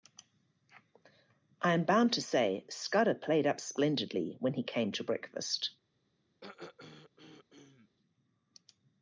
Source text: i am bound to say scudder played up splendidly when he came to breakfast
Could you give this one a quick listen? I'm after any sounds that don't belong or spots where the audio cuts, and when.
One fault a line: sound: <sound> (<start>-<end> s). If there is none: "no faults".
sound: throat clearing (6.4-7.9 s)